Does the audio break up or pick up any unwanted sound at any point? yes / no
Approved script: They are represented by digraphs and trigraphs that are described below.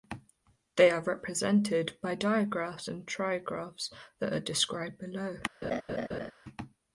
yes